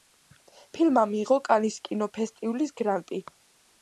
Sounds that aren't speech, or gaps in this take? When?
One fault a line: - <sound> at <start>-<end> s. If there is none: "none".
none